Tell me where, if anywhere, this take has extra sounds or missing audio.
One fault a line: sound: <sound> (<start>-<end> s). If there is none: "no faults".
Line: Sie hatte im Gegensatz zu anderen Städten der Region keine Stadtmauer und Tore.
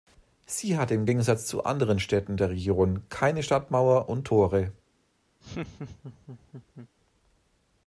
sound: laugh (5.4-6.9 s)